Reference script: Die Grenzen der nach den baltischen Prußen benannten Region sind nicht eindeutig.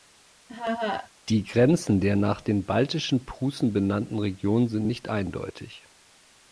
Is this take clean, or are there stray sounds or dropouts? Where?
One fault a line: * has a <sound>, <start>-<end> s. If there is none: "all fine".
* has a laugh, 0.5-1.1 s